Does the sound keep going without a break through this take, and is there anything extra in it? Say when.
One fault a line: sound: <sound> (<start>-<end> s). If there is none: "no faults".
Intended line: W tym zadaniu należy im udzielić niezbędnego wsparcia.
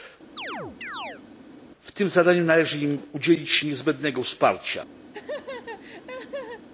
sound: chirp (0.4-1.2 s)
sound: laugh (5.1-6.7 s)